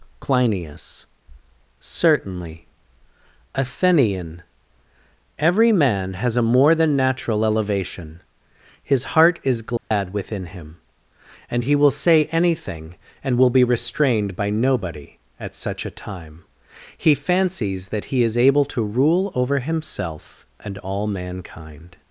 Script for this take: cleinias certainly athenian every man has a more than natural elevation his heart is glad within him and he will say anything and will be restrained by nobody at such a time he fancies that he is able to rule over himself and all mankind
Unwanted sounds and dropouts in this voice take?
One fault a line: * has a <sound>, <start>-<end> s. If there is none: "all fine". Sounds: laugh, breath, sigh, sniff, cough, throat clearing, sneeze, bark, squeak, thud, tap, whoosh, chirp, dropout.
* has a dropout, 9.8-9.9 s